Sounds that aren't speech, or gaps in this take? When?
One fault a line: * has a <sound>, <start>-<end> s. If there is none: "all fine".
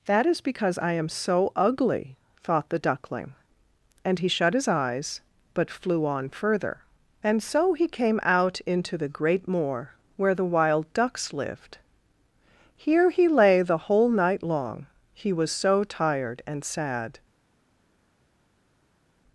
all fine